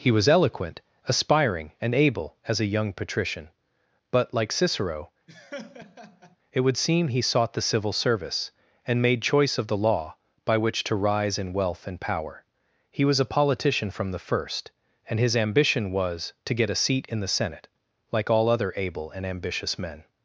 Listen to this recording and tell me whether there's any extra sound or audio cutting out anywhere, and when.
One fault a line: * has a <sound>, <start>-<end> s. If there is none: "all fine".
* has a laugh, 5.3-6.4 s